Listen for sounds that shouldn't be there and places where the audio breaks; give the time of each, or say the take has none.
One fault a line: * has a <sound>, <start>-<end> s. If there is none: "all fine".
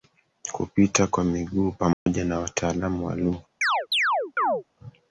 * has a dropout, 1.9-2.1 s
* has a chirp, 3.6-4.6 s